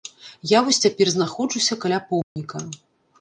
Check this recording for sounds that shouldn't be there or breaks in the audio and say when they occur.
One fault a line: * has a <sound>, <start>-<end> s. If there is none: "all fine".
* has a dropout, 2.2-2.4 s